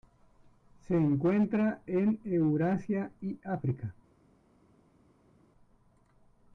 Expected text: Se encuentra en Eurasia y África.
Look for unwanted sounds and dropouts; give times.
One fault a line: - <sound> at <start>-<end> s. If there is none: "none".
none